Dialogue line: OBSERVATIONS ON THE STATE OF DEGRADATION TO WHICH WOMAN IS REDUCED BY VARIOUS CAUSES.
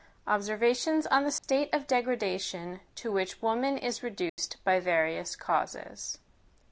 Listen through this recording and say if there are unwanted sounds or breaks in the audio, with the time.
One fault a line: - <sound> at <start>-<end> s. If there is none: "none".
- dropout at 1.4-1.4 s
- dropout at 4.3-4.4 s